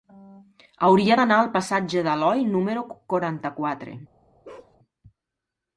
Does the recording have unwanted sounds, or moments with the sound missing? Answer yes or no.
yes